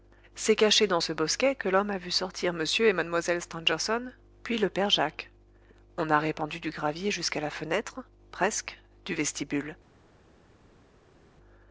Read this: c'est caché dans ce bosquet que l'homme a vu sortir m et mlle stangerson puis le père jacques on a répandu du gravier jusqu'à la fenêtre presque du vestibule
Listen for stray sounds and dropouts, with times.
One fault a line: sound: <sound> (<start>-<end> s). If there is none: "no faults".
no faults